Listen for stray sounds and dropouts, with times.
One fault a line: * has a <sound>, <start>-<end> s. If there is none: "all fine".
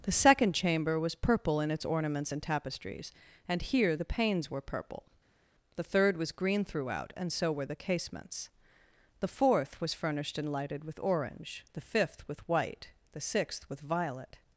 all fine